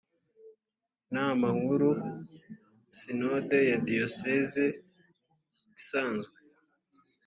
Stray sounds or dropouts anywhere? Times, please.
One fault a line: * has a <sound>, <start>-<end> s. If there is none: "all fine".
all fine